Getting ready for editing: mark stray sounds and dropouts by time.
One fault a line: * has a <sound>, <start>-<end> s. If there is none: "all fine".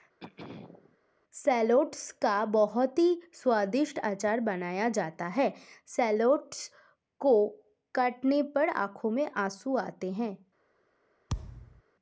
* has a throat clearing, 0.2-1.0 s
* has a thud, 11.3-11.8 s